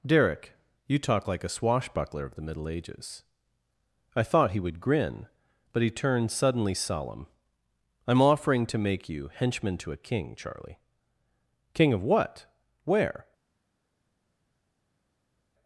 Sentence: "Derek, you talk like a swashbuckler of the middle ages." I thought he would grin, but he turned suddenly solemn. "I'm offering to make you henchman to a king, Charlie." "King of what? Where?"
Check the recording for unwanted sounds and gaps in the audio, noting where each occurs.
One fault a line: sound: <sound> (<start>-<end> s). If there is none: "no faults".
no faults